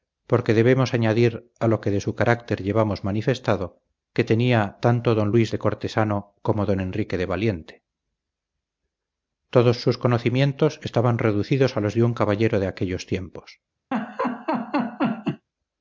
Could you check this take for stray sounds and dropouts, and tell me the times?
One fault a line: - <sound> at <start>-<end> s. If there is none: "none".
- laugh at 13.9-15.5 s